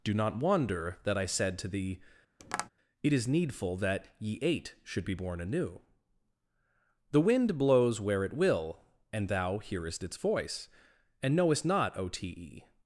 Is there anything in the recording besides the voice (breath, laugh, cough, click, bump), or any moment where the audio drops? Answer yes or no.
yes